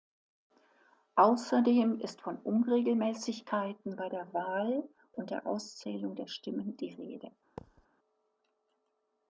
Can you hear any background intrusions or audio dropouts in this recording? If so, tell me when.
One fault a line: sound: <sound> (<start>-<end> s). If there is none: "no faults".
sound: thud (7.6-7.9 s)